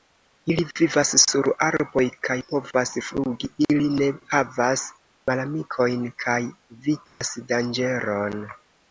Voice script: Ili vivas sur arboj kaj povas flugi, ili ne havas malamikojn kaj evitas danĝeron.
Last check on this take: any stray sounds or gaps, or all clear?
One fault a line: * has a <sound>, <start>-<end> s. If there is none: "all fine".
* has a dropout, 7.1-7.2 s